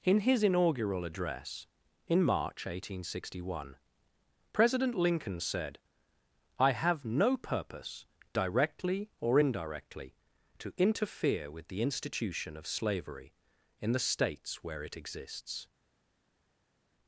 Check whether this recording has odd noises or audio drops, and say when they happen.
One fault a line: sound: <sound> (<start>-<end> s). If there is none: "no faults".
no faults